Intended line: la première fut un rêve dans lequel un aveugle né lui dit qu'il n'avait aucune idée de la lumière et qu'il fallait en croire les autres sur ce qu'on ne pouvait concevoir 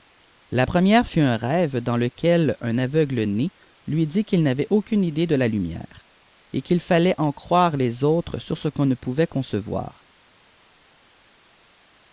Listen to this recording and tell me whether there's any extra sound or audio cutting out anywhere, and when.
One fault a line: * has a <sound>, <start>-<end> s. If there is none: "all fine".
all fine